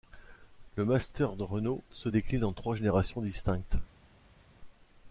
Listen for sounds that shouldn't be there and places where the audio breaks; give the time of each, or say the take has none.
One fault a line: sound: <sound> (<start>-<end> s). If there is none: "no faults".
no faults